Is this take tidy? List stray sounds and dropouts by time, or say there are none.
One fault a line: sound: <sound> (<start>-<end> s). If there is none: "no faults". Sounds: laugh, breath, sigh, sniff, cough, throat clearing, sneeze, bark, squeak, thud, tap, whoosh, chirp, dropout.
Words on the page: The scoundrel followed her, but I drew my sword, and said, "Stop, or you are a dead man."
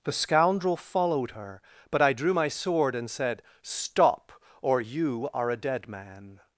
no faults